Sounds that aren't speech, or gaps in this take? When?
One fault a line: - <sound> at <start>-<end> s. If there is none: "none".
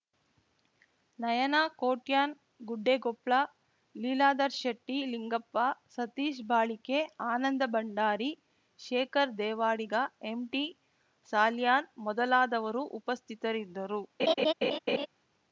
- laugh at 14.2-15.1 s